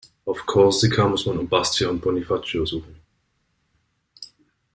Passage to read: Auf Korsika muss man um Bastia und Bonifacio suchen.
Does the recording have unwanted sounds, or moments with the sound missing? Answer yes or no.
no